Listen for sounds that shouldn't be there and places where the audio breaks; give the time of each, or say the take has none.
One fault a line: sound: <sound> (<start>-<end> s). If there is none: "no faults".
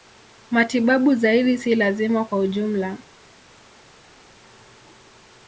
no faults